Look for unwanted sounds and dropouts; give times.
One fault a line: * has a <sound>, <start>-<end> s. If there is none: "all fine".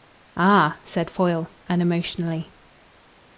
all fine